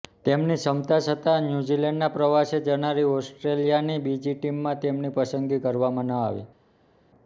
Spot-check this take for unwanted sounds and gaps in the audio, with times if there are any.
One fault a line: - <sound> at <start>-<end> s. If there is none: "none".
none